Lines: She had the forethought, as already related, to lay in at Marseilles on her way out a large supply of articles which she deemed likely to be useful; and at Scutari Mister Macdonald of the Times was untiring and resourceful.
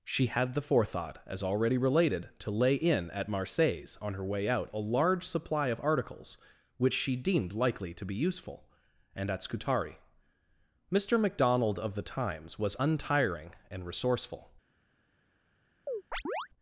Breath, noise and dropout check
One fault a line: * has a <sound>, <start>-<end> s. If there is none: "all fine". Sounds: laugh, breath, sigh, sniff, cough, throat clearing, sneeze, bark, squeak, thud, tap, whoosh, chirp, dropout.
* has a chirp, 15.9-16.5 s